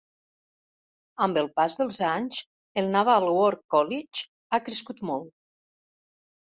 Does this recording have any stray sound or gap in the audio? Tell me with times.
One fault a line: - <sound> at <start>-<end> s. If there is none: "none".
none